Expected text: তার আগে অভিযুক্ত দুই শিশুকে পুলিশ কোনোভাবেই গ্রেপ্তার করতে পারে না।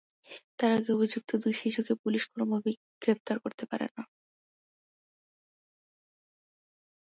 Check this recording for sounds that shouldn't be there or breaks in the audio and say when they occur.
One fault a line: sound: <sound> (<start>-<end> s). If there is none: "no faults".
no faults